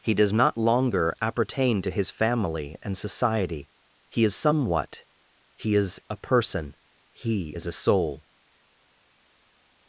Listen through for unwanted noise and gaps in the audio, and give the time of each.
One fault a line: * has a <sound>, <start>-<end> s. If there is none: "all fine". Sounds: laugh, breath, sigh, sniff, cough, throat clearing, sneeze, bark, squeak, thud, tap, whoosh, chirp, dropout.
all fine